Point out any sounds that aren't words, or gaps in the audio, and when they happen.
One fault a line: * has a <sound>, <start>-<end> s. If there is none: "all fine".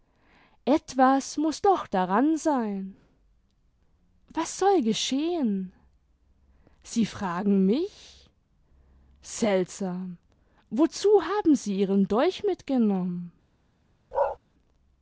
* has a bark, 14.1-14.4 s